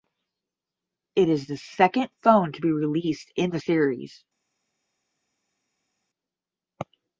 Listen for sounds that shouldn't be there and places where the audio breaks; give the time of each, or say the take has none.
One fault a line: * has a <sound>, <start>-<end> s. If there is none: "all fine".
all fine